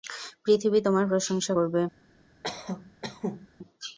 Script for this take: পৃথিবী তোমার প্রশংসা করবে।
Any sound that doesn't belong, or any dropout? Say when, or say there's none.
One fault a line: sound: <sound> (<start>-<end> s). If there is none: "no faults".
sound: cough (2.4-3.5 s)